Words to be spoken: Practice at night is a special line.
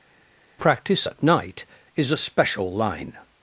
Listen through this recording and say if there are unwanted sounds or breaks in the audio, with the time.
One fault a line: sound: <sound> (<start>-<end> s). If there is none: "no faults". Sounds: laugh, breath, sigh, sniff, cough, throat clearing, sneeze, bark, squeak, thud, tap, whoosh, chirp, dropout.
no faults